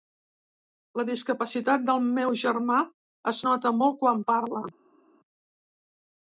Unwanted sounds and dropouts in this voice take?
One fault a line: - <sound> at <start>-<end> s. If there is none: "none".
none